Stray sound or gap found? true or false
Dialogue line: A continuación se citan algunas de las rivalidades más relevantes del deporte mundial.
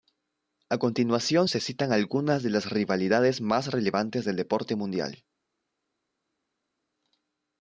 false